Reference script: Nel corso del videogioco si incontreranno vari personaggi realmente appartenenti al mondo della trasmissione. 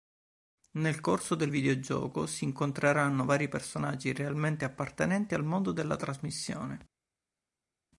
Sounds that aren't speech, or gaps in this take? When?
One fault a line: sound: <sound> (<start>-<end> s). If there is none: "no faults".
no faults